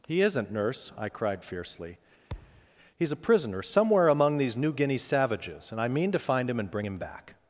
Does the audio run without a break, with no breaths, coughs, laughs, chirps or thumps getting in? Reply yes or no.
no